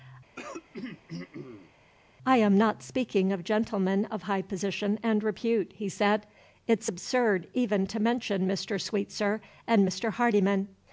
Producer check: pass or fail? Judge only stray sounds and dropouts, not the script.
fail